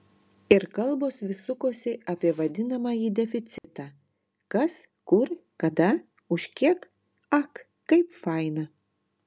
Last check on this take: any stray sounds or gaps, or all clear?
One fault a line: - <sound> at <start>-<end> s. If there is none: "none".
- dropout at 3.6-3.6 s